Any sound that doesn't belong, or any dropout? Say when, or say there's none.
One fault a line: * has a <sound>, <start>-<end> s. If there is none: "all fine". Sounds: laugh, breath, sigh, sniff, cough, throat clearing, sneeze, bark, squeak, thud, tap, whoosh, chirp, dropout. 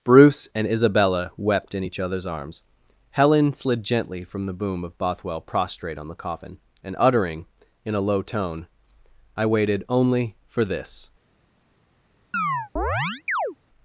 * has a chirp, 12.3-13.6 s